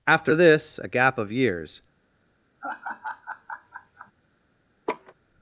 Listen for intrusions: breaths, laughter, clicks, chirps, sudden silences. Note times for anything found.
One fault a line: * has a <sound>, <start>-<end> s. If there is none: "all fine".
* has a laugh, 2.6-4.1 s
* has a laugh, 4.9-5.1 s